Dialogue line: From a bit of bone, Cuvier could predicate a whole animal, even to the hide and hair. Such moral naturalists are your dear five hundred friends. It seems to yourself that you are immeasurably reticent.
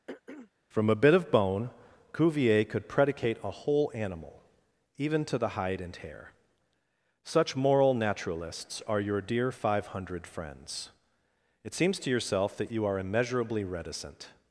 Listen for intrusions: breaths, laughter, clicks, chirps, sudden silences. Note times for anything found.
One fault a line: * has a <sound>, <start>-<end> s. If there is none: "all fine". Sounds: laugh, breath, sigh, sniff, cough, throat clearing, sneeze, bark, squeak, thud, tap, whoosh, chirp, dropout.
* has a throat clearing, 0.1-0.5 s